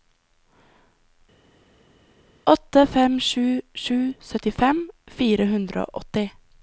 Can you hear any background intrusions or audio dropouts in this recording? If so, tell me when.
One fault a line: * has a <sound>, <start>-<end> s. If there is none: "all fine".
all fine